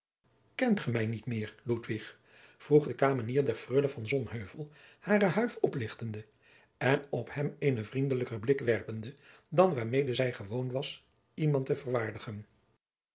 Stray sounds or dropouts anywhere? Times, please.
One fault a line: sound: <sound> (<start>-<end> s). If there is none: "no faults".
no faults